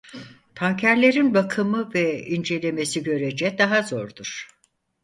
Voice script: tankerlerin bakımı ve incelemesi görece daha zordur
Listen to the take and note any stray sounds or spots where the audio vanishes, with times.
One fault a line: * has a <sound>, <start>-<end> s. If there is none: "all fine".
all fine